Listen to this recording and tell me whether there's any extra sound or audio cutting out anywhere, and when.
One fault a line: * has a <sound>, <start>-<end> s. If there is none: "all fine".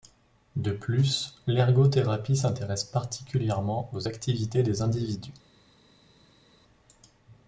all fine